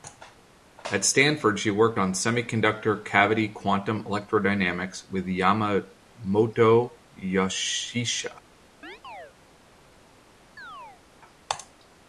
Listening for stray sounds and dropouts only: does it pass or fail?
fail